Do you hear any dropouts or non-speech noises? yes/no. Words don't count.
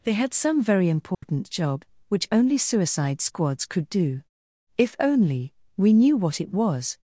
yes